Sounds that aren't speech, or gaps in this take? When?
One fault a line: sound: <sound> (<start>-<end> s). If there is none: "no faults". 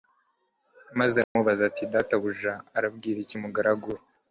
sound: dropout (1.2-1.4 s)